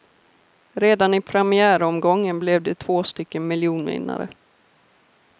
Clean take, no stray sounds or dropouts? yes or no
yes